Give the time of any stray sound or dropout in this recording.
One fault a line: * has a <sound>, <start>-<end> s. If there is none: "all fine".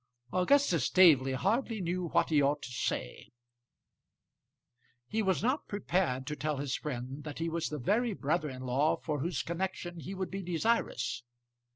all fine